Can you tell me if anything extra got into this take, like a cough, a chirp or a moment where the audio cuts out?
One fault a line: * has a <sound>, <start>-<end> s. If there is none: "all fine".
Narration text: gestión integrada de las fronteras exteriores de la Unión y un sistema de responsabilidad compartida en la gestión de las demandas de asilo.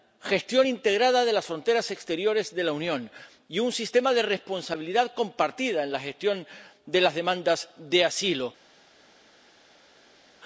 all fine